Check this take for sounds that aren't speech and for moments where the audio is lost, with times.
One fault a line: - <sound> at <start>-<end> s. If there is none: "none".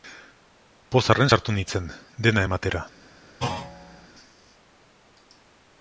- thud at 3.4-4.1 s